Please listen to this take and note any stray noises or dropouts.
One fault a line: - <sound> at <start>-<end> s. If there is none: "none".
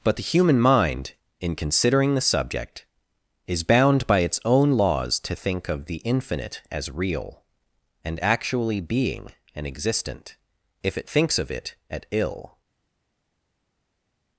none